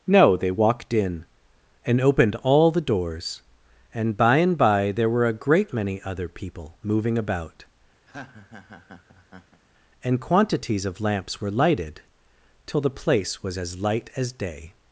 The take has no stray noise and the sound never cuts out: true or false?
false